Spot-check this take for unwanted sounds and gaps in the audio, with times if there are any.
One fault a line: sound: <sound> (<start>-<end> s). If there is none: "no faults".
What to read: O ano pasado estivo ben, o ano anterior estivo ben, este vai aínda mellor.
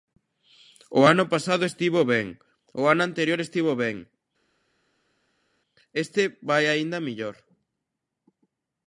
no faults